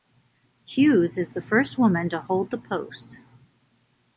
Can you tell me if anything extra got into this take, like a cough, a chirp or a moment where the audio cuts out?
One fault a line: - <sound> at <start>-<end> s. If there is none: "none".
none